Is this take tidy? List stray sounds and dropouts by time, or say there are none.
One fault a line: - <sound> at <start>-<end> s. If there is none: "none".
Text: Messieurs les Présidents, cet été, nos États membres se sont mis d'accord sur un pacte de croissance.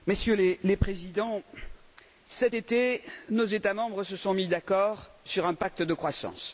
none